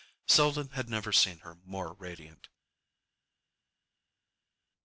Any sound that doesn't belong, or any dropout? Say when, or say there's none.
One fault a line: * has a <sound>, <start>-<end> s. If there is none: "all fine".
all fine